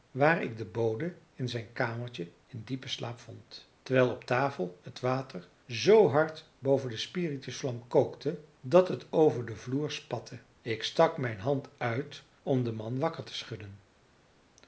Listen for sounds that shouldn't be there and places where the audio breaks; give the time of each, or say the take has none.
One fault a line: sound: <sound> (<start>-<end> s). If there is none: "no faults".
no faults